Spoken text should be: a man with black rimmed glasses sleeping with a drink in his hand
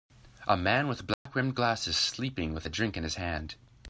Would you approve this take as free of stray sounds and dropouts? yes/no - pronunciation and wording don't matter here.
no